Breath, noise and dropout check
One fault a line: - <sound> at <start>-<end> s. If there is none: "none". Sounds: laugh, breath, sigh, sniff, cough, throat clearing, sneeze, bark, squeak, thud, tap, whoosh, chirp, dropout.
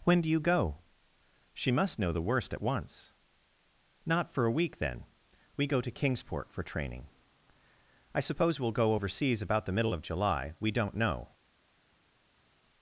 none